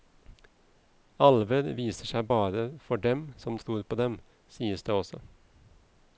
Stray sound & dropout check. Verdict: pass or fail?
pass